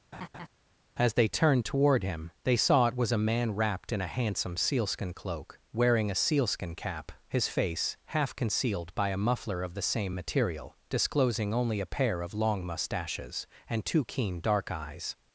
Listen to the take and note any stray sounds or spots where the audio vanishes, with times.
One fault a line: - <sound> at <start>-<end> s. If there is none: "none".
- laugh at 0.1-0.5 s